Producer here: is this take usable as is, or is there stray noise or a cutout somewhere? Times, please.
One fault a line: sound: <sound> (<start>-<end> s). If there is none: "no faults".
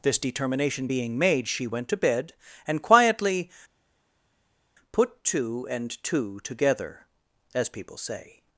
no faults